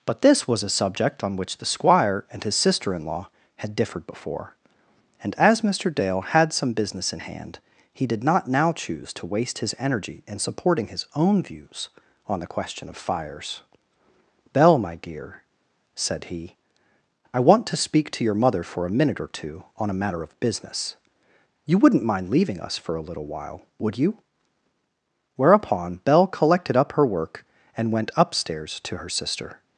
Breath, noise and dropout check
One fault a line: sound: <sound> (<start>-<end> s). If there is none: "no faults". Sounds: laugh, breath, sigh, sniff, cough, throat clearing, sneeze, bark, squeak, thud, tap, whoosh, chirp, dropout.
no faults